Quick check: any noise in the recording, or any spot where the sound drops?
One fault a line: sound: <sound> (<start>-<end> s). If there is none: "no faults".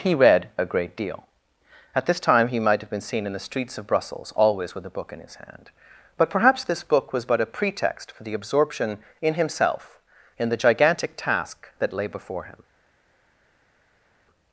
no faults